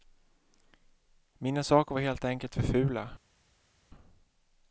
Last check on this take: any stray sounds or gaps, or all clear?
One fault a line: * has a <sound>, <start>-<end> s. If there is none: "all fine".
all fine